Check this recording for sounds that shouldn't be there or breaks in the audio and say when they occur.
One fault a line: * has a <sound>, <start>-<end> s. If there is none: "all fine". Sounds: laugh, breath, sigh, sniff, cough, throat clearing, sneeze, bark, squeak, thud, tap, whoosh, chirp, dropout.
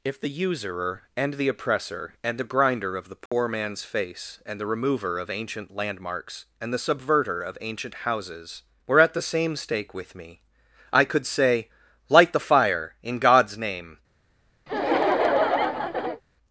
* has a dropout, 3.3-3.3 s
* has a laugh, 14.7-16.2 s